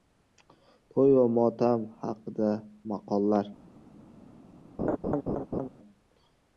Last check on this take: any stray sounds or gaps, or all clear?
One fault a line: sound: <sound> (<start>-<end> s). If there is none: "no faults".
sound: laugh (4.8-5.7 s)